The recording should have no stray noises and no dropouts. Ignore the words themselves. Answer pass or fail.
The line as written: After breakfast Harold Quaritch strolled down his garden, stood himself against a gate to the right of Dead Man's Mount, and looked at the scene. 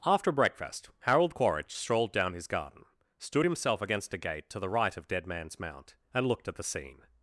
pass